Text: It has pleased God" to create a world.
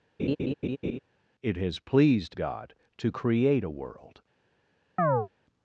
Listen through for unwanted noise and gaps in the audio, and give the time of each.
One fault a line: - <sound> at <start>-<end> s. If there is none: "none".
- laugh at 0.2-1.0 s
- chirp at 5.0-5.3 s